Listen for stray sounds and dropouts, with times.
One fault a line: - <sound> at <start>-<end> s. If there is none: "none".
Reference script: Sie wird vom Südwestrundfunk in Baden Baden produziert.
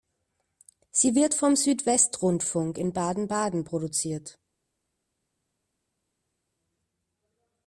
none